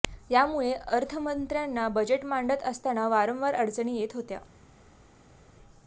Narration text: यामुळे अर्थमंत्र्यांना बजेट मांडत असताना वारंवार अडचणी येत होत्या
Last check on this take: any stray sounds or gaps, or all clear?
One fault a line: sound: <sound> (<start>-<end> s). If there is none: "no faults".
no faults